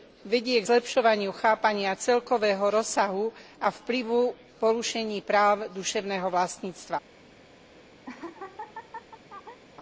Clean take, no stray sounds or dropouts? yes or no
no